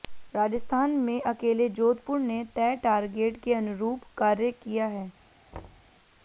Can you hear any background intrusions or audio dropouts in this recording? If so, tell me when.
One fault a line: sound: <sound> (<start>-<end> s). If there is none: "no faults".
sound: thud (5.5-5.9 s)